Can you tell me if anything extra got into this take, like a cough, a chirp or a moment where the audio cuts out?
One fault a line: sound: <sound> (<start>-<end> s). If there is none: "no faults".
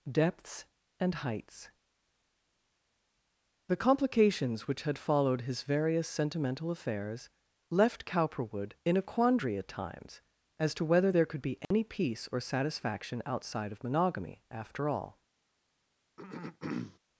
sound: dropout (11.6-11.7 s)
sound: throat clearing (16.2-17.0 s)